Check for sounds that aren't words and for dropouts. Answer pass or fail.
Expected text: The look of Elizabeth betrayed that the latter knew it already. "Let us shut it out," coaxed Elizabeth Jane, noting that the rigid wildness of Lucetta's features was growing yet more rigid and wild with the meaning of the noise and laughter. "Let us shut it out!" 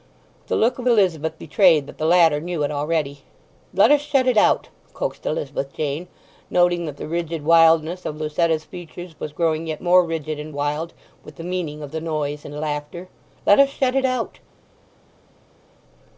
pass